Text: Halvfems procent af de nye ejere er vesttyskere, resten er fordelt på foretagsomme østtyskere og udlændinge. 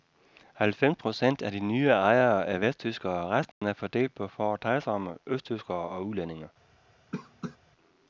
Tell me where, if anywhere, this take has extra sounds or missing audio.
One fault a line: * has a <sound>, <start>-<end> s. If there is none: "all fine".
* has a dropout, 3.5-3.6 s
* has a cough, 7.1-7.6 s